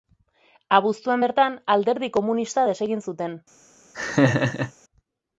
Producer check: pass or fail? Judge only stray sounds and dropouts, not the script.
fail